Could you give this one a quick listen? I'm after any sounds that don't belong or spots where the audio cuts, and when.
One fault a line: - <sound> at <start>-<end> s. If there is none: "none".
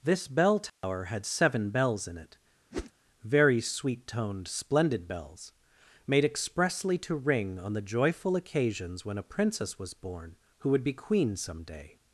- dropout at 0.7-0.8 s
- whoosh at 2.7-2.9 s